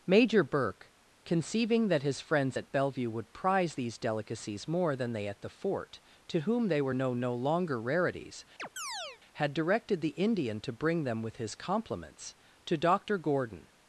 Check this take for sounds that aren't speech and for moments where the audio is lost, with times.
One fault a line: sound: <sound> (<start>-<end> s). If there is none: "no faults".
sound: chirp (8.6-9.2 s)